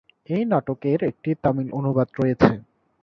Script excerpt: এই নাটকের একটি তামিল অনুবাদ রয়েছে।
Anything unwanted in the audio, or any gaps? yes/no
no